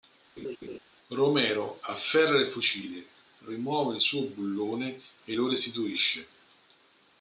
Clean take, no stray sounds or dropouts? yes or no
no